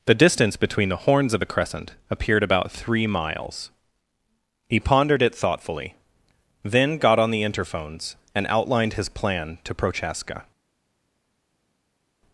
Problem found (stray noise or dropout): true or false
false